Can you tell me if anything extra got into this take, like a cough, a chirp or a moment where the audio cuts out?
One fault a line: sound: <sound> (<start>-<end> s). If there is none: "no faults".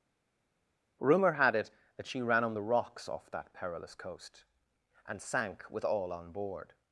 no faults